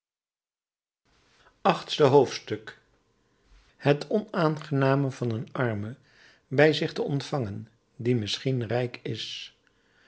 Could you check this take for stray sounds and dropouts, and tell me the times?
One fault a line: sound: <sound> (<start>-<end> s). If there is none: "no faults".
no faults